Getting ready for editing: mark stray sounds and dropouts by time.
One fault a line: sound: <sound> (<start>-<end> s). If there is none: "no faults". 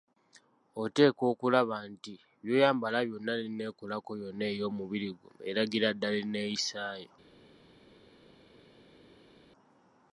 no faults